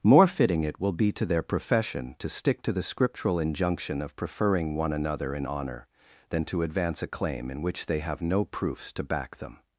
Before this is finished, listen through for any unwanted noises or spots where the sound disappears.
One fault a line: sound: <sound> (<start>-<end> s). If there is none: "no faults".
no faults